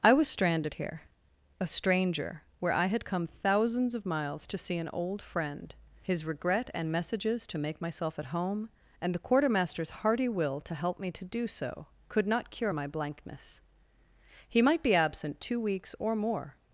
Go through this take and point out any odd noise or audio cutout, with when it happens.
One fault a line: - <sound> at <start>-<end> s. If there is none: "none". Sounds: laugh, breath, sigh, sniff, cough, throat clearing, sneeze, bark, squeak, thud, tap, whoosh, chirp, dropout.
none